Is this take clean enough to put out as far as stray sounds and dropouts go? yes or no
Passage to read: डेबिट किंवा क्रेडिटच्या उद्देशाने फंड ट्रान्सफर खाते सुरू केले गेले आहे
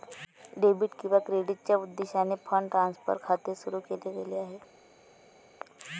yes